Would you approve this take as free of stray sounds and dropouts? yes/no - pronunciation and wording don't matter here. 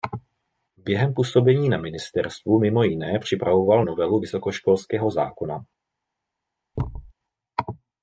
no